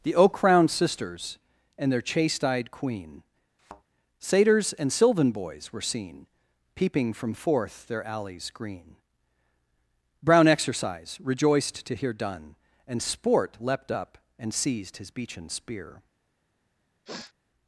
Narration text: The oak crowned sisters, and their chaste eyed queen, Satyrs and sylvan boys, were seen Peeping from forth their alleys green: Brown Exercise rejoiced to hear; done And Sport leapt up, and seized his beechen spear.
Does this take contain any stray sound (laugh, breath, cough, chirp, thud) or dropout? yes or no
yes